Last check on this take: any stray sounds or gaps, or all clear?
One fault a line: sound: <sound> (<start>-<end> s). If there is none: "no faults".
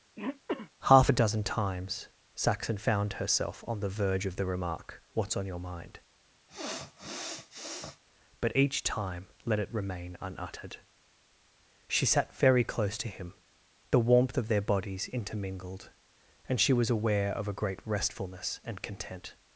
sound: throat clearing (0.2-0.7 s)
sound: sniff (6.5-8.0 s)